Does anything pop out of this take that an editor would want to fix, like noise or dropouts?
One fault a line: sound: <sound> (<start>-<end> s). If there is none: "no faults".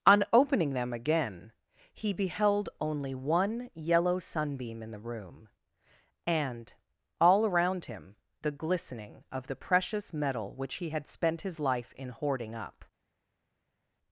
no faults